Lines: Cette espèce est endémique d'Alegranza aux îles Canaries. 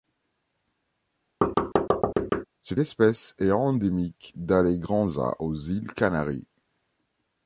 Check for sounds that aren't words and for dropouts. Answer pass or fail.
fail